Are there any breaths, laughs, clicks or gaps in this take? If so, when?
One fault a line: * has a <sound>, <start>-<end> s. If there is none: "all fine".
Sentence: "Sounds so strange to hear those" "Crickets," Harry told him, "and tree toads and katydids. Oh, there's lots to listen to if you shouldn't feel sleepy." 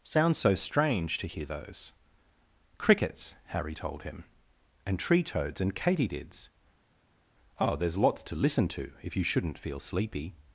all fine